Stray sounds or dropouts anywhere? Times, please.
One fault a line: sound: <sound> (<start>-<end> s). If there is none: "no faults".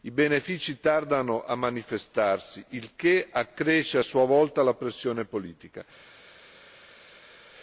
no faults